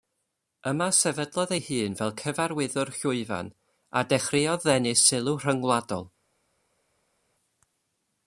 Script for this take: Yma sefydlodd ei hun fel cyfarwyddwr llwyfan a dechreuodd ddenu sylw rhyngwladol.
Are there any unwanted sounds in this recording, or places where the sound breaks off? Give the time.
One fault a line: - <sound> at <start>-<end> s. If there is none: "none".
none